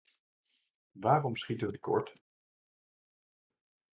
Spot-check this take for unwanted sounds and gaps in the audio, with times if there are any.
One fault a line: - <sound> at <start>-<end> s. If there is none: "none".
none